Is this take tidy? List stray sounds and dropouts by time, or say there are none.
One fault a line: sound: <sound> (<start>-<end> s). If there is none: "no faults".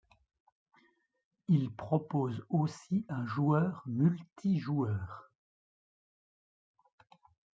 no faults